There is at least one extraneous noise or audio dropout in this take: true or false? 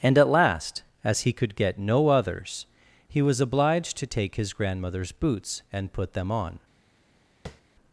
true